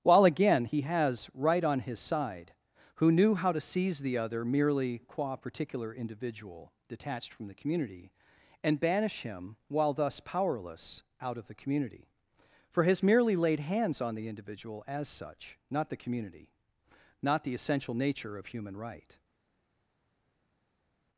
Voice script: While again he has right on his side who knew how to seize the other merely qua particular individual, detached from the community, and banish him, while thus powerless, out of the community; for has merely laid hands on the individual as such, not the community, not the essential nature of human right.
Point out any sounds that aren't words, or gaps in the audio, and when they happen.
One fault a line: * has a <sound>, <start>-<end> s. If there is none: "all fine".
all fine